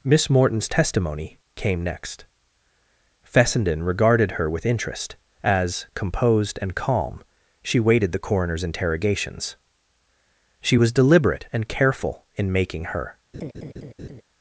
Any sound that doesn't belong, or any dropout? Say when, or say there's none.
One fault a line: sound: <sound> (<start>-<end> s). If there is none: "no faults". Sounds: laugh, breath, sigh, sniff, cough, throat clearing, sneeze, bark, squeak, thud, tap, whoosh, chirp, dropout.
sound: laugh (13.3-14.2 s)